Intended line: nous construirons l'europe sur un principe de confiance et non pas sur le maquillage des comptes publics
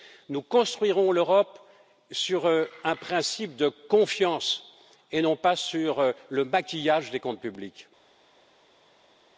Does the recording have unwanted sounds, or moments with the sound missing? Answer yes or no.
no